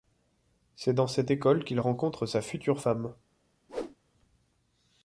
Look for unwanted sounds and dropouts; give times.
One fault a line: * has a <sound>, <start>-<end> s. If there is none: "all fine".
* has a whoosh, 3.7-4.0 s